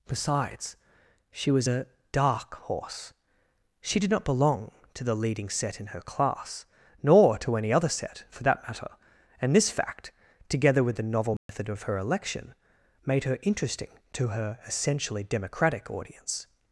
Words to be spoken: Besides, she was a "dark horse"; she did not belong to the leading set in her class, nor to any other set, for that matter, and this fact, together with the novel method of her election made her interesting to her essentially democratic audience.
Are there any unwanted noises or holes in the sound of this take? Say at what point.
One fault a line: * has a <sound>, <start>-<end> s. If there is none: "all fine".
* has a dropout, 11.4-11.5 s